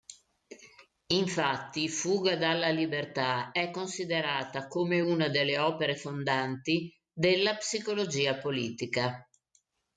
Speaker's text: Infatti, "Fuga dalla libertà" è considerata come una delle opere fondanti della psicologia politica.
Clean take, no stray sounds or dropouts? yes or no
yes